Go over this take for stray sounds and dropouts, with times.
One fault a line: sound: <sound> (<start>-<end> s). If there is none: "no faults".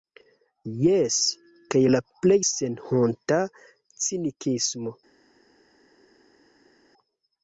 no faults